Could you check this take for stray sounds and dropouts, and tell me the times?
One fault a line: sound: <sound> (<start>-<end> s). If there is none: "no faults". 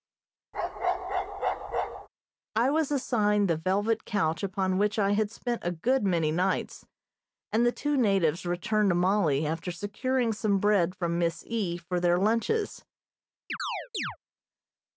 sound: bark (0.5-2.1 s)
sound: chirp (13.5-14.2 s)